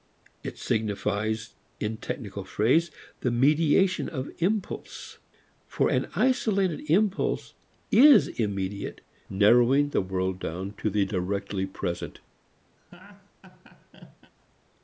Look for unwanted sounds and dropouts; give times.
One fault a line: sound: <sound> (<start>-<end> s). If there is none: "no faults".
sound: laugh (12.8-14.3 s)